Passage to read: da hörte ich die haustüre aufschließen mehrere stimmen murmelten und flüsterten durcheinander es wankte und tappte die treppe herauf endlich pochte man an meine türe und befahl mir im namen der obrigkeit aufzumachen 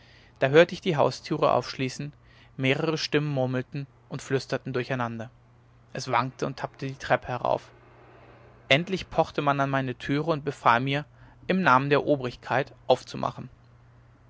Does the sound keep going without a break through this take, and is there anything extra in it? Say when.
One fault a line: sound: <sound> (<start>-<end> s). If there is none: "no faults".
no faults